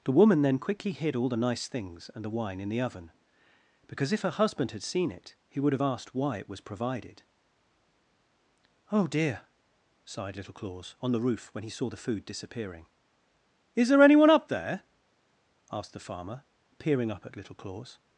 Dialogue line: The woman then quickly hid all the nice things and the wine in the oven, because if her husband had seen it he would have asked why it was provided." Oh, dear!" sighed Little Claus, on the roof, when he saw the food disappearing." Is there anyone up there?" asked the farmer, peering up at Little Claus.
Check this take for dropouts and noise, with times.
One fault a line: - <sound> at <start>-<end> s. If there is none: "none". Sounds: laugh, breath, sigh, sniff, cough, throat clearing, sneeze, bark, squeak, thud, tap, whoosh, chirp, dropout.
none